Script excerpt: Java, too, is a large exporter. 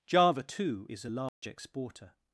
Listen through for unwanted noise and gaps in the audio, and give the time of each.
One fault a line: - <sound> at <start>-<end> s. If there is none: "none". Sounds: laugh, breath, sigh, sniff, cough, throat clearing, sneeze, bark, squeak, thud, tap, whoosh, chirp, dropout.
- dropout at 1.3-1.4 s